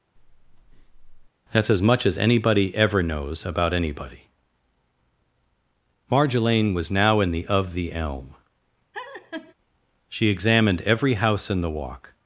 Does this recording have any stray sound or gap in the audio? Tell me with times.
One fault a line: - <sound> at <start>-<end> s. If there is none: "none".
- breath at 0.2-1.3 s
- laugh at 8.9-9.5 s